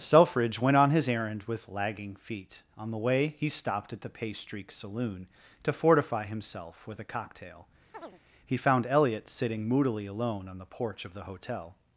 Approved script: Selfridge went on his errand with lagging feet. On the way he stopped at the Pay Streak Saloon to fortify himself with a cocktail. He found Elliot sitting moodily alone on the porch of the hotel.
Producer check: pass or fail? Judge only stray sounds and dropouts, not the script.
fail